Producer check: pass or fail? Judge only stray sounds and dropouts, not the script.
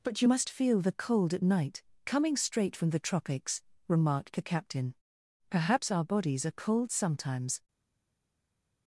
pass